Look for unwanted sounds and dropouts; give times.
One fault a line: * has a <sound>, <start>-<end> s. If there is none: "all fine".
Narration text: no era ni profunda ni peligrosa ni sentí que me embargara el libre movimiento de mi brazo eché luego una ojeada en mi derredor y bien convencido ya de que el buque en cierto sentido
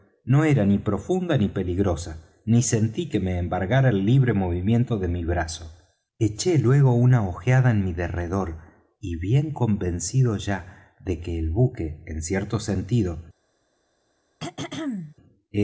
* has a throat clearing, 14.4-15.2 s